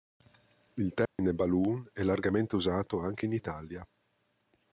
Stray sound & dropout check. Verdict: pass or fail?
fail